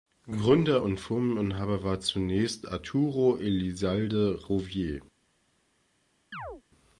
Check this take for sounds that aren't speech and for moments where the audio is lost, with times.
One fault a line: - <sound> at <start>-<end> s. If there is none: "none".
- chirp at 6.3-6.6 s